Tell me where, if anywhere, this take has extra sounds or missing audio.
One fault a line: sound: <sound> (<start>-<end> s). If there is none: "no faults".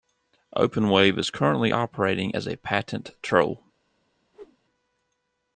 sound: whoosh (4.3-4.6 s)